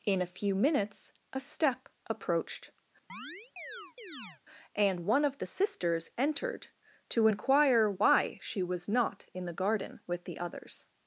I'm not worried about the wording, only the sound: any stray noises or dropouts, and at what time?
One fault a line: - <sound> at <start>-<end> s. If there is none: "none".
- chirp at 3.1-4.4 s